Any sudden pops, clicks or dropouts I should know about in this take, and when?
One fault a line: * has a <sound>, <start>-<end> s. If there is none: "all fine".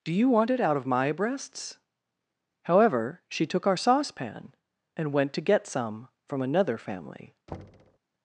* has a thud, 7.5-8.0 s